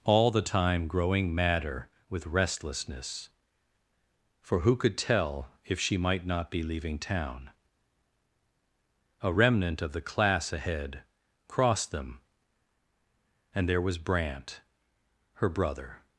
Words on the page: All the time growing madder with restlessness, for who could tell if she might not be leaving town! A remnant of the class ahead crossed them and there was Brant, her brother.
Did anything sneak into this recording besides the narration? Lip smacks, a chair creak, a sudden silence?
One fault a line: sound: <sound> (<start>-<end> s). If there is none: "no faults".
no faults